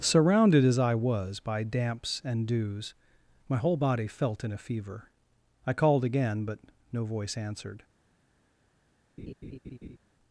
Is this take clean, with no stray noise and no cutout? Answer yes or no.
no